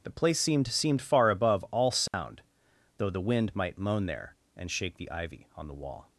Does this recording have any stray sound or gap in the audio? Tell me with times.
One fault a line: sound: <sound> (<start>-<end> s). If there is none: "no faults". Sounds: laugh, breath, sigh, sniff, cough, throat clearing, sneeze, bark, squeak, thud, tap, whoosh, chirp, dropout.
sound: dropout (2.1-2.1 s)